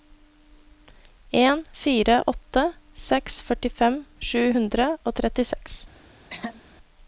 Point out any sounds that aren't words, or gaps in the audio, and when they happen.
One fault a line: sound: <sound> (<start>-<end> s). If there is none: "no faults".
sound: throat clearing (6.3-6.6 s)